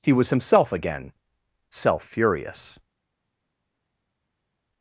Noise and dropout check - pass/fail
pass